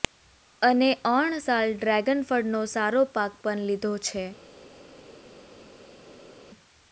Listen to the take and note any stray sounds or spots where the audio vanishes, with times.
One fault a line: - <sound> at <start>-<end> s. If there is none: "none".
none